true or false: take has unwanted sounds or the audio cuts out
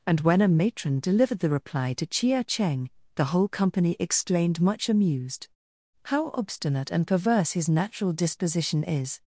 false